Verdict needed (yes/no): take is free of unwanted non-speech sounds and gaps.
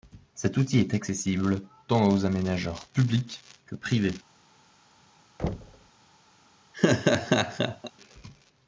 no